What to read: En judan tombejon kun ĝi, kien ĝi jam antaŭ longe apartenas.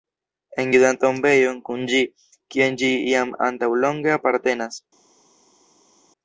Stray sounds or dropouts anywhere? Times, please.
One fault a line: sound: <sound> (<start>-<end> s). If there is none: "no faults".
no faults